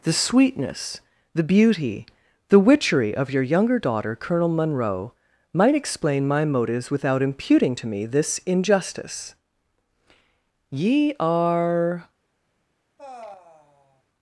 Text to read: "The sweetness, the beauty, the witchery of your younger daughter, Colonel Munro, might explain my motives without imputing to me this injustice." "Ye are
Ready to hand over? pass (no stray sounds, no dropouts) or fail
fail